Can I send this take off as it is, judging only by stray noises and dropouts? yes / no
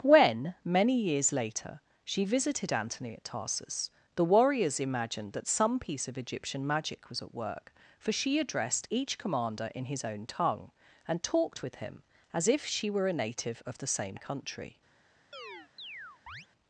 no